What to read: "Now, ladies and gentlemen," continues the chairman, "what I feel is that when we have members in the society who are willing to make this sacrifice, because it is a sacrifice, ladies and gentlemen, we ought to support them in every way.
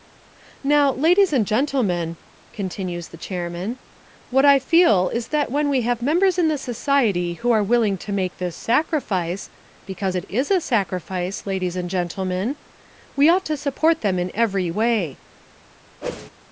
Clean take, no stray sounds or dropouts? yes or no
no